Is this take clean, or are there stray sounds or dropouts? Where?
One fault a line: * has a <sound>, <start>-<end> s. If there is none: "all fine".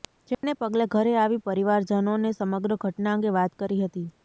* has a dropout, 0.3-0.4 s